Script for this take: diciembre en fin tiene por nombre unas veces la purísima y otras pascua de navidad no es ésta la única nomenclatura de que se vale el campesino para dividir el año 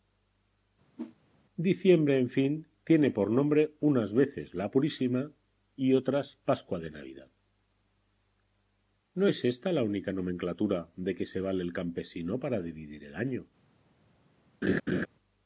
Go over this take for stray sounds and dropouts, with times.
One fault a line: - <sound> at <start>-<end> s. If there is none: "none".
- whoosh at 1.0-1.2 s
- laugh at 14.6-15.1 s